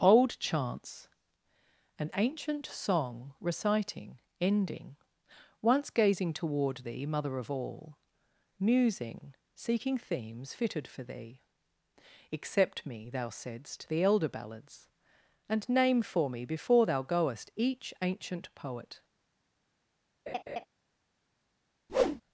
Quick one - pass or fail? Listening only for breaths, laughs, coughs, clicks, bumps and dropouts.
fail